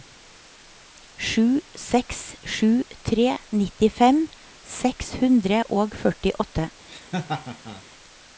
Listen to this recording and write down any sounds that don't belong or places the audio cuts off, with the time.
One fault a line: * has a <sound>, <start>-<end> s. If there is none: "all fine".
* has a laugh, 6.9-7.8 s